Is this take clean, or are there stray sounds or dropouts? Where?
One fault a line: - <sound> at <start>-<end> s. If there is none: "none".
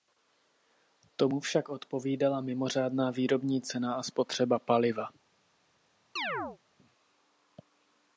- chirp at 6.2-6.6 s